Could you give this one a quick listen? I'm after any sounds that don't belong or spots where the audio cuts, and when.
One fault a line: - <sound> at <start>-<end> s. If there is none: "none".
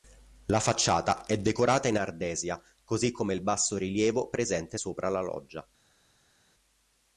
none